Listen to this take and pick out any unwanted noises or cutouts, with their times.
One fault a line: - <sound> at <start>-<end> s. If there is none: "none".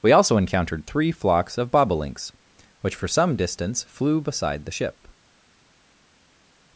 none